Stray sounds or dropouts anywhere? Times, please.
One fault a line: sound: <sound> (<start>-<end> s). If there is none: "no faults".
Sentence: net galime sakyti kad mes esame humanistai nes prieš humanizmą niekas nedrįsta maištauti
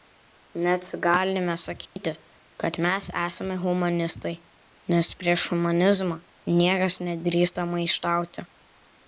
sound: dropout (1.9-2.0 s)